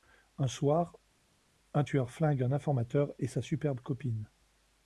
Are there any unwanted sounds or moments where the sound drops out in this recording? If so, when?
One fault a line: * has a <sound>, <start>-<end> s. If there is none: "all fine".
all fine